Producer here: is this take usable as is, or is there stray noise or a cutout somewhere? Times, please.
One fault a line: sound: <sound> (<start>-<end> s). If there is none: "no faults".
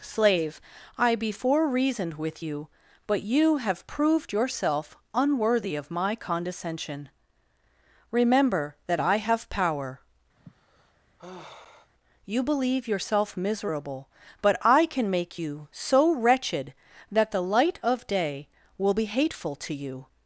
sound: sigh (10.4-11.9 s)